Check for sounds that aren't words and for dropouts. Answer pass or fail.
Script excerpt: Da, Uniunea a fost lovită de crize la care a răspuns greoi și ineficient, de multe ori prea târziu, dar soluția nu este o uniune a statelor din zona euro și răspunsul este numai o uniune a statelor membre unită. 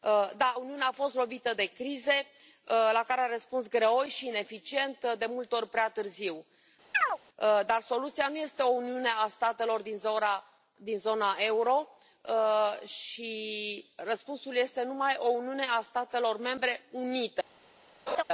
fail